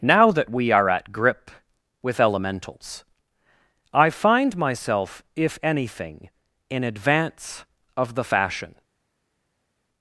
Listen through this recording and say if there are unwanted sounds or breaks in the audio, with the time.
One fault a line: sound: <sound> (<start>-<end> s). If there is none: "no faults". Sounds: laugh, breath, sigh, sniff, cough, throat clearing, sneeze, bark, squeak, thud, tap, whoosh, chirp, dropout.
no faults